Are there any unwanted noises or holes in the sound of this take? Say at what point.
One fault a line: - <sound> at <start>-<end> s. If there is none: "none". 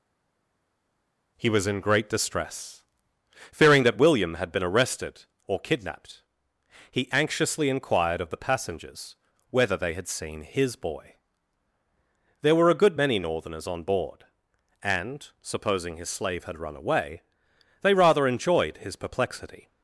none